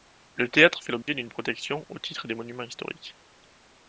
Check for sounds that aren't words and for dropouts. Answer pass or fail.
fail